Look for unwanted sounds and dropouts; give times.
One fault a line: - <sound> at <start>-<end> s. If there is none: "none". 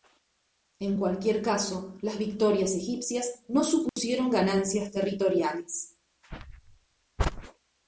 - dropout at 3.9-4.0 s